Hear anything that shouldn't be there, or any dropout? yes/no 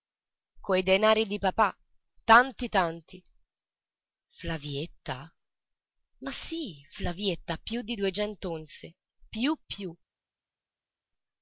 no